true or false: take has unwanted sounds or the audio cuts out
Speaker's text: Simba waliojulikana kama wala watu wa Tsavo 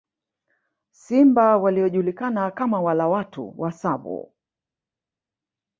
false